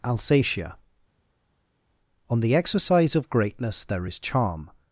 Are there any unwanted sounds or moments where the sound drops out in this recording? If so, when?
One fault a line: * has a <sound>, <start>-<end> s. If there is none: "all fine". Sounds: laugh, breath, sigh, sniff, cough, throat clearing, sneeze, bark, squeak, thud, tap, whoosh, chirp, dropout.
all fine